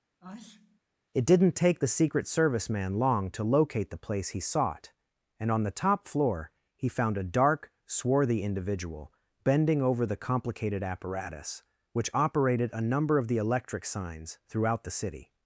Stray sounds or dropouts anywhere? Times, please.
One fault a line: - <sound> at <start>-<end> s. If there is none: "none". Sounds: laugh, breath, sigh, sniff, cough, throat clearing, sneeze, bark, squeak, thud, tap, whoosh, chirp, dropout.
- sneeze at 0.2-0.8 s